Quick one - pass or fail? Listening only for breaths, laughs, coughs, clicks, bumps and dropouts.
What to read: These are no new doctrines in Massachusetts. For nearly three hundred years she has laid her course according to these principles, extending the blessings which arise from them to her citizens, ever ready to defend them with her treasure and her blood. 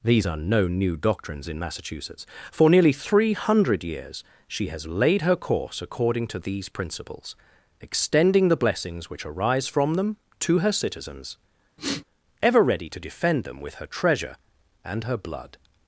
fail